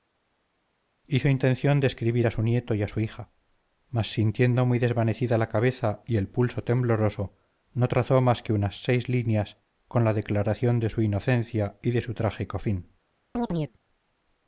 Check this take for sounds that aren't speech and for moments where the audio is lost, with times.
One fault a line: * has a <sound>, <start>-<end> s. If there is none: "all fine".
* has a chirp, 13.3-13.8 s